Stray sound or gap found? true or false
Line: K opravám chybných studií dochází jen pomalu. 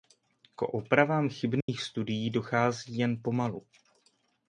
true